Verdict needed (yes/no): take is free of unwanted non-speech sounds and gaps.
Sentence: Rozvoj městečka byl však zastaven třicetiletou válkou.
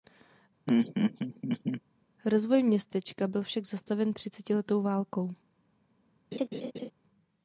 no